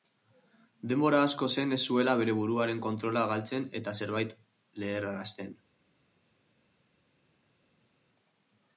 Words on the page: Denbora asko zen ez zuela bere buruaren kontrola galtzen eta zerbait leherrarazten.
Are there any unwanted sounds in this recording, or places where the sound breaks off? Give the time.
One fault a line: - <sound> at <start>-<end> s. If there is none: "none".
none